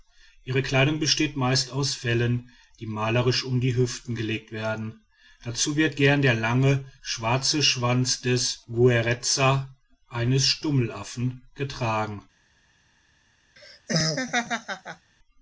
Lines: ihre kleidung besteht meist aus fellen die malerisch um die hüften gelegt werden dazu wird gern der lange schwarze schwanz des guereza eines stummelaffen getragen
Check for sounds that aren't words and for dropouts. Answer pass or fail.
fail